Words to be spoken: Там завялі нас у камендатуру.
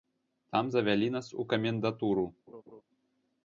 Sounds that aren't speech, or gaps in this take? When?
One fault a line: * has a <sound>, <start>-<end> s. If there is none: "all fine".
* has a laugh, 2.5-2.8 s